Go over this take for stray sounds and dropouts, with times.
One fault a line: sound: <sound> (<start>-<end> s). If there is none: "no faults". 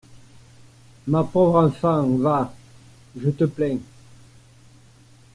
no faults